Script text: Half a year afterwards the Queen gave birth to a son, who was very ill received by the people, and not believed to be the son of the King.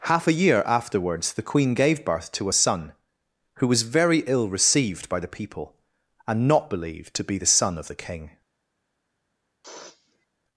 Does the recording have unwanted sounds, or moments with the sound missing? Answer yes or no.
yes